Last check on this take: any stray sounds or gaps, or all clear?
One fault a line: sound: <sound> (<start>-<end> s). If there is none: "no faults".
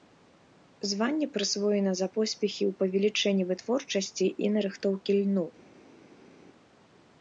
no faults